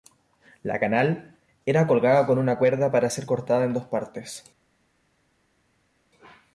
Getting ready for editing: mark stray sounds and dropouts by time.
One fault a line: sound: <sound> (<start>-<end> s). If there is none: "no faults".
no faults